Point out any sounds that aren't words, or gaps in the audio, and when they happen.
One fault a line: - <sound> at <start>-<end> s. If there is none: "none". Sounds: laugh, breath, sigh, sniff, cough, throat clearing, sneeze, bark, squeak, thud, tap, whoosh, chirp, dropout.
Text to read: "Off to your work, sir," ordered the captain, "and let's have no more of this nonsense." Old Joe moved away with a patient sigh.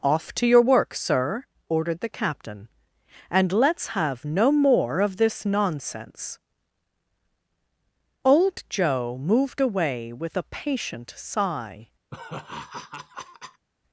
- laugh at 12.1-13.7 s